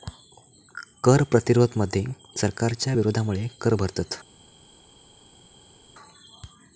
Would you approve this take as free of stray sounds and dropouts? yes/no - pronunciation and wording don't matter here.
yes